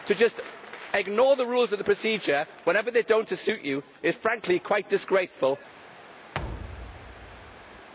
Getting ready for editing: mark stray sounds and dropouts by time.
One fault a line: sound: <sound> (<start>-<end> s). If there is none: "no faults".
sound: thud (6.3-7.9 s)